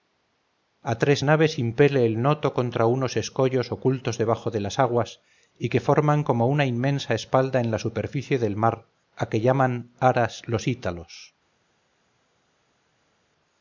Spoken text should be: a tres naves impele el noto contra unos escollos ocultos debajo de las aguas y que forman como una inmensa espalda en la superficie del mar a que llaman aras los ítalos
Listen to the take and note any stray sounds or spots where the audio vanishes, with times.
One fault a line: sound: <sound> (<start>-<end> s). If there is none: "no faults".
no faults